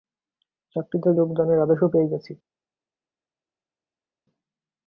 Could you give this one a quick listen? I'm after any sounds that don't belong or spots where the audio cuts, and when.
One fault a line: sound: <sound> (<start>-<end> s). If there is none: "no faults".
no faults